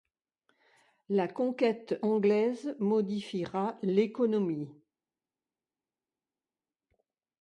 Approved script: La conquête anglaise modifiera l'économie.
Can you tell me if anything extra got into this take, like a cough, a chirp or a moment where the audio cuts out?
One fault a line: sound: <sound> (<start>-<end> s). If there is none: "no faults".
no faults